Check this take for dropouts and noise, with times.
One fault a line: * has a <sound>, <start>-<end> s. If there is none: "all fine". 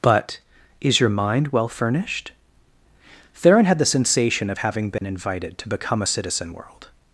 * has a dropout, 5.0-5.0 s